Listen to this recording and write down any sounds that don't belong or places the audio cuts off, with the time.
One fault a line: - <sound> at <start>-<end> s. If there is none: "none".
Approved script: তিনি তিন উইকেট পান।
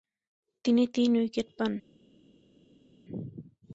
none